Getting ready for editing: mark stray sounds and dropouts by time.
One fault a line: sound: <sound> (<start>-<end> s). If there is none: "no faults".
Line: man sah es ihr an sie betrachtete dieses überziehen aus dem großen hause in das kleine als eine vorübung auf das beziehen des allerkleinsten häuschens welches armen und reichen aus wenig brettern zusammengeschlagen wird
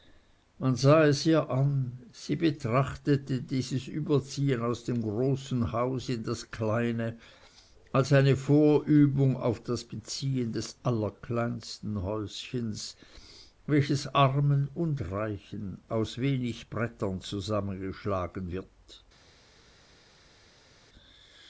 no faults